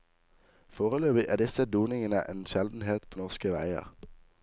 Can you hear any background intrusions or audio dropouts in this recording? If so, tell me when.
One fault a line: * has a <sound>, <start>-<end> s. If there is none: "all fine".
all fine